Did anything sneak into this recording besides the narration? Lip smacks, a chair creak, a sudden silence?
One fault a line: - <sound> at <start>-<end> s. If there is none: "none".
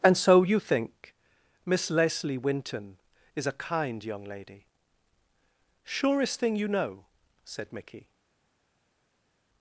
none